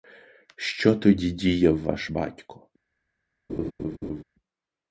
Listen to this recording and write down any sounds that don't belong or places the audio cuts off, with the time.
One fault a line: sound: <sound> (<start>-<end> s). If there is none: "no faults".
sound: laugh (3.5-4.2 s)